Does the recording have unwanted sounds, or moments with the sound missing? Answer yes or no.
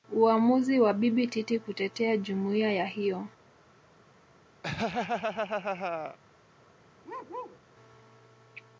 yes